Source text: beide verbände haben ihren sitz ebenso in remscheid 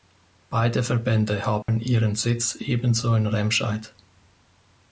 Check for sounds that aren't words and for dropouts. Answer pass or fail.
fail